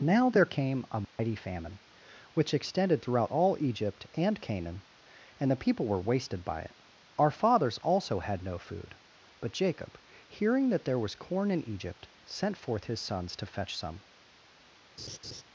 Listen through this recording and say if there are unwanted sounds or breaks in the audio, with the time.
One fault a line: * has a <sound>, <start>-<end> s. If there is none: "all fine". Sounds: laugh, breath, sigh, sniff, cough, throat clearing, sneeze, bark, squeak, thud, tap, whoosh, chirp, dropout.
* has a dropout, 1.0-1.2 s
* has a laugh, 15.0-15.4 s